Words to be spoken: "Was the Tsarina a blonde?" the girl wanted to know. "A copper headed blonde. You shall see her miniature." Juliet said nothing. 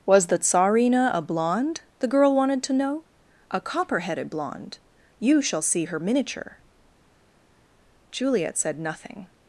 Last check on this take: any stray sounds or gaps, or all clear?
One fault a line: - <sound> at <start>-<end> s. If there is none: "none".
none